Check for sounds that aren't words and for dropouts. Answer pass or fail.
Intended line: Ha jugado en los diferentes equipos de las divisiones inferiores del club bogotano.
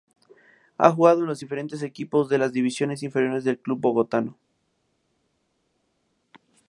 pass